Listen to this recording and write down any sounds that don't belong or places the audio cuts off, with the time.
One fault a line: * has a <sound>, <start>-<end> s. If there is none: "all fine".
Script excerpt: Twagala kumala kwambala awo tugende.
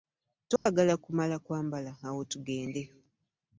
* has a dropout, 0.6-0.7 s